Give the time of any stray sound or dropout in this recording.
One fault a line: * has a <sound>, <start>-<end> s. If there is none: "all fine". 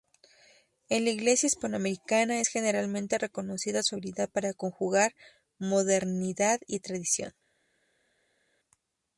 all fine